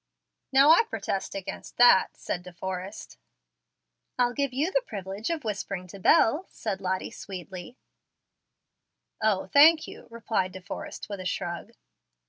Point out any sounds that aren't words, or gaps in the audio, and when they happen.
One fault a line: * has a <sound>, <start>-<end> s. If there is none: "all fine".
all fine